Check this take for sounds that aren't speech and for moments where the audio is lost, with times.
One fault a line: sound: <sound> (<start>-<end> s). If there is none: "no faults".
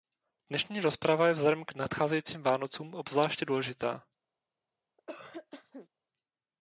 sound: cough (5.0-5.9 s)